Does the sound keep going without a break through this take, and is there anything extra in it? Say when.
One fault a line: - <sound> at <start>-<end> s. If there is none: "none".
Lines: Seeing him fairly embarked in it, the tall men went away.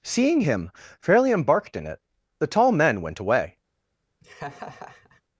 - laugh at 4.2-5.2 s